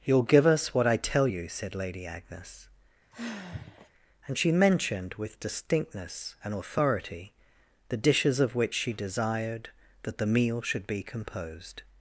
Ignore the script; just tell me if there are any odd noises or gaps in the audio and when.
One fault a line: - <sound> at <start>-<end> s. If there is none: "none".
- sigh at 3.1-3.9 s